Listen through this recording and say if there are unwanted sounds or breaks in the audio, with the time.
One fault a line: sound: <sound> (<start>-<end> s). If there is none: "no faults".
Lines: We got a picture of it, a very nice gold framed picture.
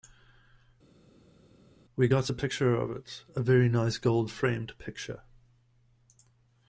no faults